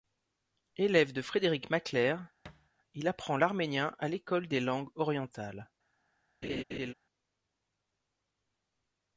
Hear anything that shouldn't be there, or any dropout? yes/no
yes